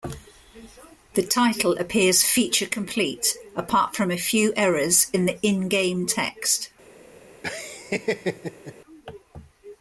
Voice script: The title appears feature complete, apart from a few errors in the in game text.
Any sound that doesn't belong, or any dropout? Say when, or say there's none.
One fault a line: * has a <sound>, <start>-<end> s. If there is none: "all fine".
* has a laugh, 7.4-8.7 s